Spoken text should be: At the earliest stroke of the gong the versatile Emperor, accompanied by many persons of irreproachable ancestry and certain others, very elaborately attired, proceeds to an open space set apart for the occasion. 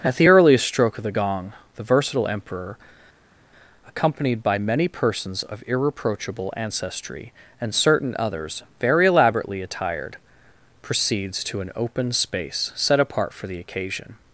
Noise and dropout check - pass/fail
pass